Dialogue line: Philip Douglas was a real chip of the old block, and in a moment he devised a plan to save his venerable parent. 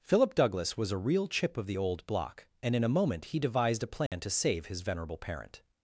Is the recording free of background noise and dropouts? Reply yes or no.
no